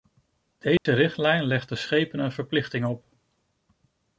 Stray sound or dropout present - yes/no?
yes